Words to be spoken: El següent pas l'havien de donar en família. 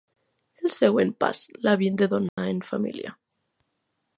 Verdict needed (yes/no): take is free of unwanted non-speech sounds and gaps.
no